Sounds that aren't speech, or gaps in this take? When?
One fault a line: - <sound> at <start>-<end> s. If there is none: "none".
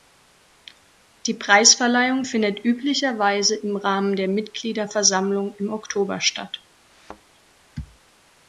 - thud at 6.9-7.2 s